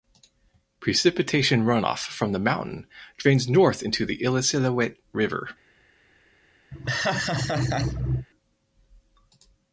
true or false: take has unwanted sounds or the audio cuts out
true